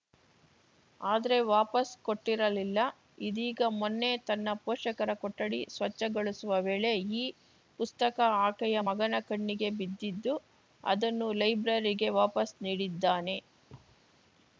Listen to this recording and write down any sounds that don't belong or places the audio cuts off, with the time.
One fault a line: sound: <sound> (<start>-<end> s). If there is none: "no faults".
sound: thud (13.7-14.1 s)